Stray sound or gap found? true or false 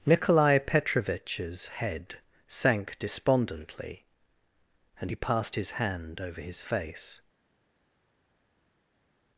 false